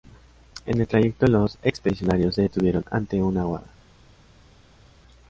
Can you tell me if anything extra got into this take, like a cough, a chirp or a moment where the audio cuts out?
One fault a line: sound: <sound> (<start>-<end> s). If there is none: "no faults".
no faults